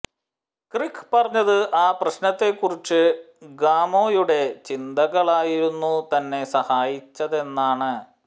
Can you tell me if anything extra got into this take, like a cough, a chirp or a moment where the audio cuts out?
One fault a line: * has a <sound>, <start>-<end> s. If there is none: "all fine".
all fine